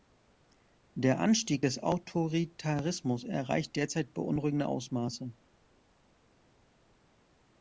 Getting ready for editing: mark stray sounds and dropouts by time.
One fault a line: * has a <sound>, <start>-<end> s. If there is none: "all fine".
all fine